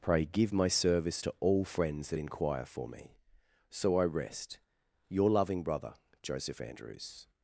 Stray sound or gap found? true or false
false